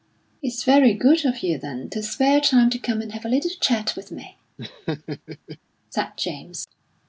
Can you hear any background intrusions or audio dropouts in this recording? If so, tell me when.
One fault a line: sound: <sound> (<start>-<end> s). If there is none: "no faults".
sound: laugh (4.6-5.6 s)